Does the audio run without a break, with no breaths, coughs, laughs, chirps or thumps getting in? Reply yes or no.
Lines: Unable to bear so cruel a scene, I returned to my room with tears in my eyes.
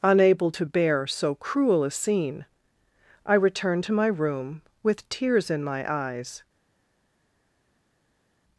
yes